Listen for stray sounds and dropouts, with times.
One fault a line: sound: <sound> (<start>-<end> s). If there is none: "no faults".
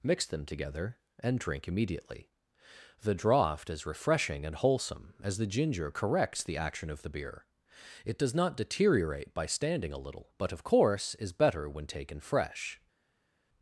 no faults